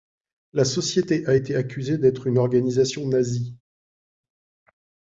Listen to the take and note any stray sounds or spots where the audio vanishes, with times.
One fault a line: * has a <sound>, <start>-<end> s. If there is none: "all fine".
all fine